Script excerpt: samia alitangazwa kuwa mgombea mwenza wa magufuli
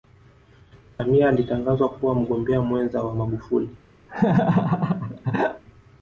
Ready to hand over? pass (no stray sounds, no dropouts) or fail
fail